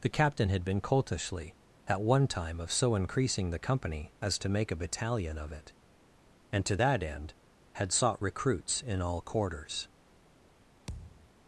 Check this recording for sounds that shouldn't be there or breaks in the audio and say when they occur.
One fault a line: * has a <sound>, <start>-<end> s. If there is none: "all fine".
* has a thud, 10.9-11.3 s